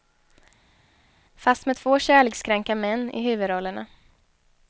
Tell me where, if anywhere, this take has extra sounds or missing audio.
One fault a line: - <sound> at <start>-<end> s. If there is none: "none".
none